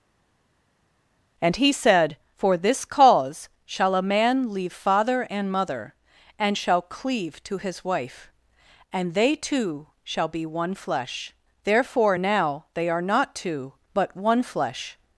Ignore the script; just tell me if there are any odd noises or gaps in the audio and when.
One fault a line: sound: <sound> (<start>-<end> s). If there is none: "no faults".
no faults